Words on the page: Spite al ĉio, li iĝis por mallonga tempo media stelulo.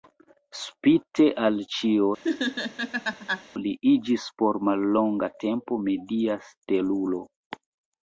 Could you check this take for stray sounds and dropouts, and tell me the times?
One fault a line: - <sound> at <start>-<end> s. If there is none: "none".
- laugh at 2.2-3.4 s